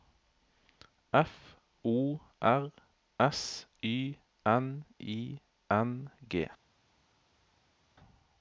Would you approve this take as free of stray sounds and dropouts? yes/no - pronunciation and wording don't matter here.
yes